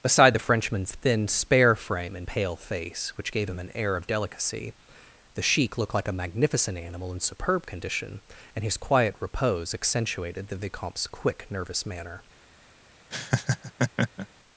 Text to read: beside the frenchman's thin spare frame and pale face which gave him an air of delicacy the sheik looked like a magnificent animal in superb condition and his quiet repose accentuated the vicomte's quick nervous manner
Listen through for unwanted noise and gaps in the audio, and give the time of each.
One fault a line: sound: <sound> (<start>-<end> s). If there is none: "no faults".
sound: laugh (13.1-14.3 s)